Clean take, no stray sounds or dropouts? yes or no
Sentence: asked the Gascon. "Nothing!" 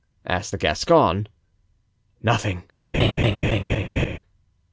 no